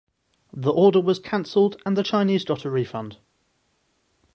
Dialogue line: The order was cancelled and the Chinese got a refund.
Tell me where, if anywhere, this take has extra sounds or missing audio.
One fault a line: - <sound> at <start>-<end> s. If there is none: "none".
none